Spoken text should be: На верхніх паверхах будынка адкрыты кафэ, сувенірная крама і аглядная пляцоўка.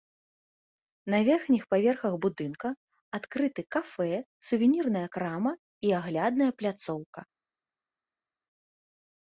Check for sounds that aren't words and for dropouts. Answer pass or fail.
pass